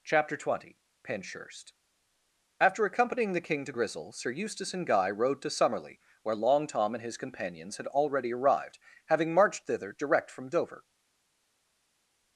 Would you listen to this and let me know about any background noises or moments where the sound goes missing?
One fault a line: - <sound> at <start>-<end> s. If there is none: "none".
none